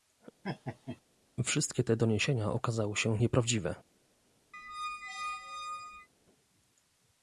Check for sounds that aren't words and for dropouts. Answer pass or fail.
fail